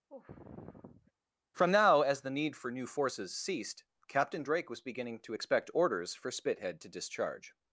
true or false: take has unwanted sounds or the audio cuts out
true